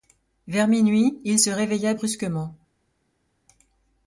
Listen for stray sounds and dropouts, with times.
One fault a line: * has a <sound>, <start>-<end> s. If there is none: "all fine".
all fine